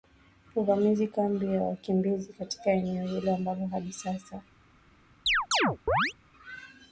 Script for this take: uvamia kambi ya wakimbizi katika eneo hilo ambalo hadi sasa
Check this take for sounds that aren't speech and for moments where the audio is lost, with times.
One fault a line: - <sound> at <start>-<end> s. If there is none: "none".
- chirp at 5.3-6.1 s